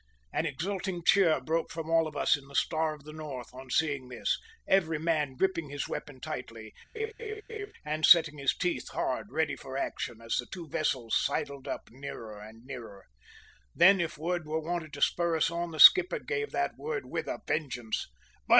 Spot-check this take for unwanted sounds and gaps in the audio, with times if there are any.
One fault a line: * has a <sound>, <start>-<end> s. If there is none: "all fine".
* has a laugh, 6.9-7.7 s